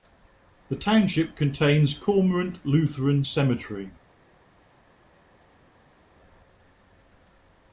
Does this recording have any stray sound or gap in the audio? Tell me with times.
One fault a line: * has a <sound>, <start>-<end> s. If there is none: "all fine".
all fine